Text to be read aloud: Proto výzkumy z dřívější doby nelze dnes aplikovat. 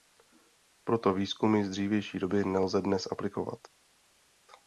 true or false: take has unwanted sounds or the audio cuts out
false